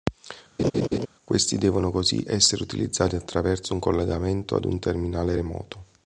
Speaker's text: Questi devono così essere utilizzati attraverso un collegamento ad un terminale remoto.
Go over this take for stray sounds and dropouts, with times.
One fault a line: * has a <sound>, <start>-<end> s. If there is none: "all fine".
* has a laugh, 0.6-1.1 s